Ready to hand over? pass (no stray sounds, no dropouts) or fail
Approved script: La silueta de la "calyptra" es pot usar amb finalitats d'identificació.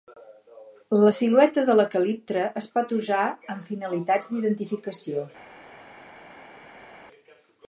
pass